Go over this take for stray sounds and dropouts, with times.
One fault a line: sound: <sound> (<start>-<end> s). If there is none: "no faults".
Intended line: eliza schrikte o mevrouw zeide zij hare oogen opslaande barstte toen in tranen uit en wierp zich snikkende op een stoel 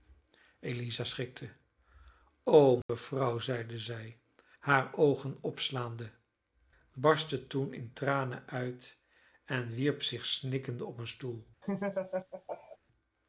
sound: dropout (2.8-2.9 s)
sound: laugh (11.6-12.8 s)